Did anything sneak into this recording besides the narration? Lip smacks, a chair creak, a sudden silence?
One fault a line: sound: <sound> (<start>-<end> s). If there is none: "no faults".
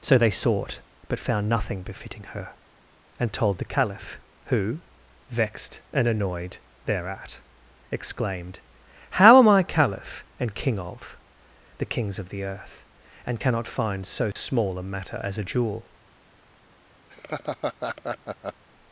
sound: dropout (14.3-14.4 s)
sound: laugh (17.1-18.6 s)